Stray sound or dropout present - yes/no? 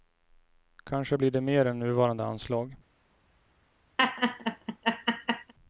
yes